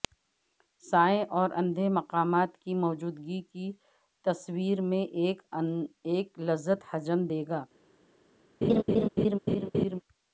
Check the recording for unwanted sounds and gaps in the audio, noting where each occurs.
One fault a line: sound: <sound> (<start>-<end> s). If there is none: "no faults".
sound: laugh (8.6-10.0 s)